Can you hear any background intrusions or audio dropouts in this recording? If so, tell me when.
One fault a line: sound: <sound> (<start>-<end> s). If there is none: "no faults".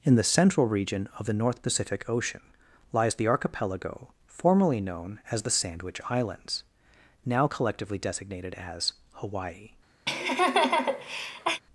sound: laugh (10.1-11.6 s)